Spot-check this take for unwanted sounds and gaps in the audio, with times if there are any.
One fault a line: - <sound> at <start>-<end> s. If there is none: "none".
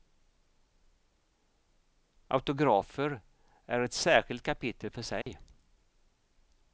- dropout at 5.2-5.3 s